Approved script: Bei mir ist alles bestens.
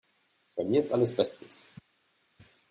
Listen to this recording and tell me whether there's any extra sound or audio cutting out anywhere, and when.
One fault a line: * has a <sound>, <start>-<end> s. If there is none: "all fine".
all fine